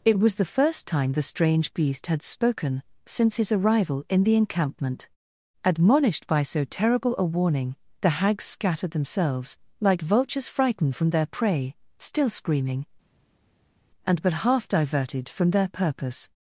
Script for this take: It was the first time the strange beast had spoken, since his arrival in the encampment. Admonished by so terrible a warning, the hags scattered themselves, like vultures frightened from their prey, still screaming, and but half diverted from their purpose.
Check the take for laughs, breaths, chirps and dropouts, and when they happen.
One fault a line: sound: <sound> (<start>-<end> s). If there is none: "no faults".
no faults